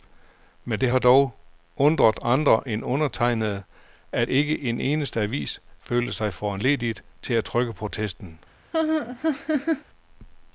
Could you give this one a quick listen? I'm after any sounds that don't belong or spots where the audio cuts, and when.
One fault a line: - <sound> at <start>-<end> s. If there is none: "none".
- laugh at 8.7-9.8 s